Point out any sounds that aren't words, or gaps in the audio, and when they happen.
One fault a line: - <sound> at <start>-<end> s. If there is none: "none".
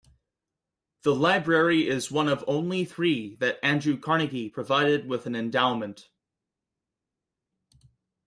none